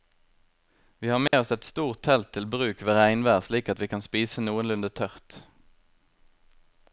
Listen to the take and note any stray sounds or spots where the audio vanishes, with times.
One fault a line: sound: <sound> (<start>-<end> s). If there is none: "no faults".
sound: dropout (1.3-1.3 s)